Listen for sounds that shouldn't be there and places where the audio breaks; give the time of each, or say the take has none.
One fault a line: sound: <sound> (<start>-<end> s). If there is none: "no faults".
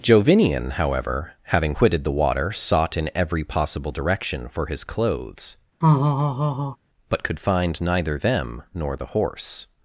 sound: laugh (5.8-6.8 s)